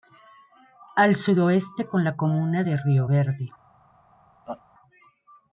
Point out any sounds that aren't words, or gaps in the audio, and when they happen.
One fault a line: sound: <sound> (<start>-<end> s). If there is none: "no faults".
sound: laugh (4.5-4.6 s)